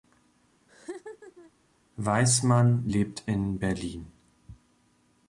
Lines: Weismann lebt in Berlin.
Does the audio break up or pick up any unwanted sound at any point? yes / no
yes